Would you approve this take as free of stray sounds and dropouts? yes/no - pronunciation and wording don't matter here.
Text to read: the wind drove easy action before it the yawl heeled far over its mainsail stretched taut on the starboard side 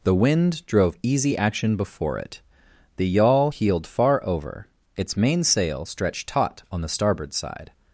yes